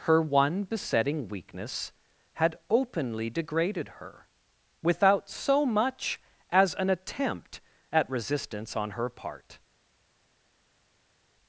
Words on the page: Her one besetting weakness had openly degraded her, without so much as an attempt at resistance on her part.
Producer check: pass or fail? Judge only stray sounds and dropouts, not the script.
pass